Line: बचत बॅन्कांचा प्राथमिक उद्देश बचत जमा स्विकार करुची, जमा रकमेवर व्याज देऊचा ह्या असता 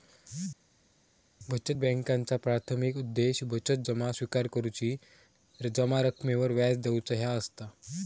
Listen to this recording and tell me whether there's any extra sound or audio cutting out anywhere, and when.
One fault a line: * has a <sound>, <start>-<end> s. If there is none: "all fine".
all fine